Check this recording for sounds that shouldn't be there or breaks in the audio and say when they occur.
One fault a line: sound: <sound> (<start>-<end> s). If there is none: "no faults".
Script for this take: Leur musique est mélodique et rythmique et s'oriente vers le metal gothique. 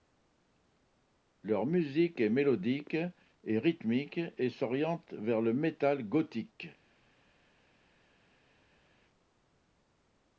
no faults